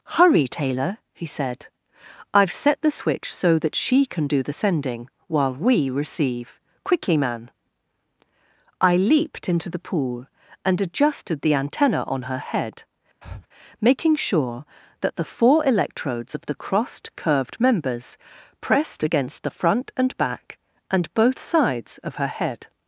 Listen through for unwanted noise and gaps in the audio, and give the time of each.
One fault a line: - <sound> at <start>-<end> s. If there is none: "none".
- breath at 13.2-13.5 s